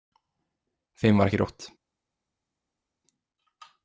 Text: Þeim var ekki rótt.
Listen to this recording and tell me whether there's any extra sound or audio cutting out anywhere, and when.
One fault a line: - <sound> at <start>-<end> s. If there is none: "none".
none